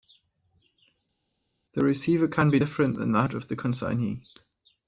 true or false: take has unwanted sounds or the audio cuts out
false